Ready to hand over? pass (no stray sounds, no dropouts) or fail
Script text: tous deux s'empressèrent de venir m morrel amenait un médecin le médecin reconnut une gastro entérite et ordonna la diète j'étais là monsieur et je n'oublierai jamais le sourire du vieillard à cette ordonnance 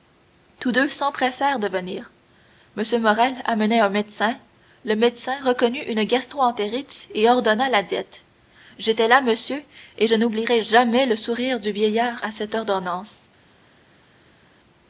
pass